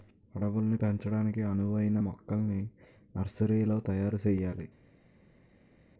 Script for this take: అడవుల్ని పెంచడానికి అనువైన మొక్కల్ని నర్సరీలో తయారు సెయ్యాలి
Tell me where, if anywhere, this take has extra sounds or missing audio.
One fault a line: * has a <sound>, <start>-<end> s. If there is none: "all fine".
all fine